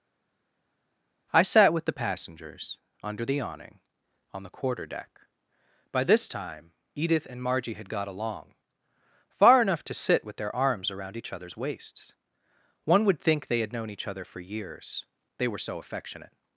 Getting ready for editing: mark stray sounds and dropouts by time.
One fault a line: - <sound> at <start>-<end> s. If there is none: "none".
none